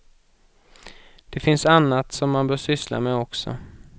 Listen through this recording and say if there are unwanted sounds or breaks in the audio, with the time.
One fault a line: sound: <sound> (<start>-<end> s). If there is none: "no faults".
no faults